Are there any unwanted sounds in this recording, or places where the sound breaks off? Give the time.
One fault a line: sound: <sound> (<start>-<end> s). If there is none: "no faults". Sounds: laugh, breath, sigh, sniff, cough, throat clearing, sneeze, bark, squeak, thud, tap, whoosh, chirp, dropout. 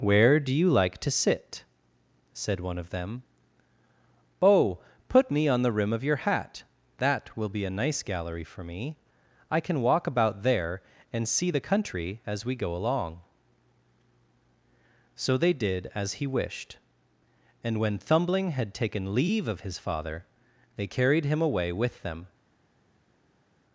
no faults